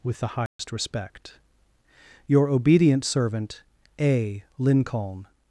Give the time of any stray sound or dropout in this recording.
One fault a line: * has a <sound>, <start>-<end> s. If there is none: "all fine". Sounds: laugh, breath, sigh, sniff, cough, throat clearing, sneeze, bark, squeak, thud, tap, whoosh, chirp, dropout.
* has a dropout, 0.5-0.6 s